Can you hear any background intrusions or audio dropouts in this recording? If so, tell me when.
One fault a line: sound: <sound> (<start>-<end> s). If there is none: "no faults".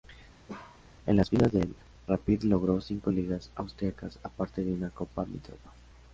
sound: bark (0.5-0.8 s)